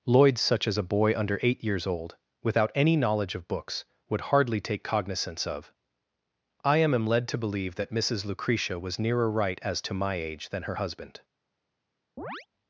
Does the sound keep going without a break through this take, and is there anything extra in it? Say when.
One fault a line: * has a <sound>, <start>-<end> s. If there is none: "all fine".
* has a chirp, 12.2-12.5 s